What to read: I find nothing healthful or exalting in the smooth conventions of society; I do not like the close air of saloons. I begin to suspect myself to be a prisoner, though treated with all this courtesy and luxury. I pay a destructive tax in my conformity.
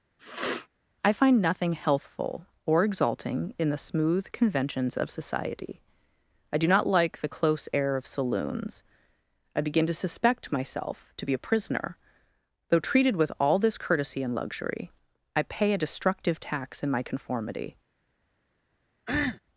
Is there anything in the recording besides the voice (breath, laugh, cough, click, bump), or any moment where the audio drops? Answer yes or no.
yes